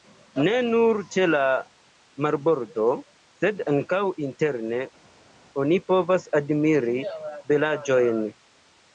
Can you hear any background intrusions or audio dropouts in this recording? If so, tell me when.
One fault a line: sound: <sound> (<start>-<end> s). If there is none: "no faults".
no faults